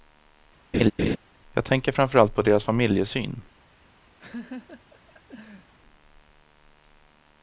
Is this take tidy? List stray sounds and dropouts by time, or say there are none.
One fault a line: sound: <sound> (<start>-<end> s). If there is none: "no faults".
sound: laugh (0.7-1.2 s)
sound: laugh (4.2-5.7 s)